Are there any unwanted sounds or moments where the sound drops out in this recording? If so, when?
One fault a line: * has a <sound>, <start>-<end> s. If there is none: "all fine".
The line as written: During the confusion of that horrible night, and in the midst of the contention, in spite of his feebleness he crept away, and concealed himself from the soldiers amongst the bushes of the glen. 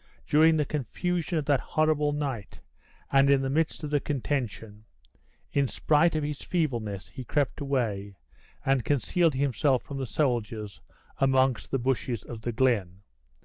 all fine